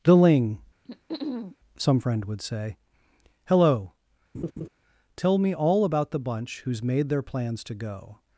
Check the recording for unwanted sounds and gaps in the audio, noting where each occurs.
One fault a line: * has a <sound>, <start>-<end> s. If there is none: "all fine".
* has a throat clearing, 0.8-1.6 s
* has a laugh, 4.3-4.7 s